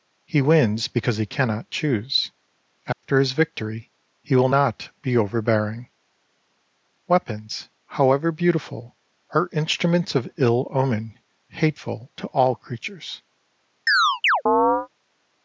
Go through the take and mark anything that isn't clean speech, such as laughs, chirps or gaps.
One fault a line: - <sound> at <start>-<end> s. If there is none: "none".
- dropout at 2.9-3.0 s
- chirp at 13.9-14.9 s